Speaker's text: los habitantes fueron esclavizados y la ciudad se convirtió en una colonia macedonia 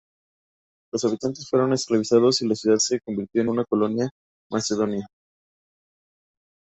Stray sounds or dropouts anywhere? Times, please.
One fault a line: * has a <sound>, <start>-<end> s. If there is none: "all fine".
all fine